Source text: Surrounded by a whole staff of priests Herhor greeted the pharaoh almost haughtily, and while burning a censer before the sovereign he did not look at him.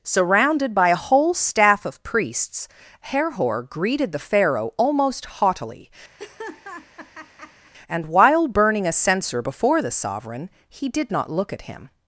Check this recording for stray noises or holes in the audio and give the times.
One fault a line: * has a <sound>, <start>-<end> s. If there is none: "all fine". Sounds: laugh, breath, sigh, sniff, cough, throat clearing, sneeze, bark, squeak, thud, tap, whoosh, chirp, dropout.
* has a laugh, 6.2-7.7 s